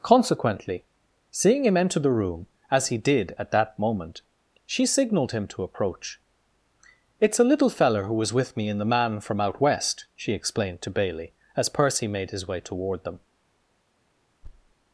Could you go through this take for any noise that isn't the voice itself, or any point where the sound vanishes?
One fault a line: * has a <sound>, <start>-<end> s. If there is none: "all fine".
* has a thud, 14.4-14.7 s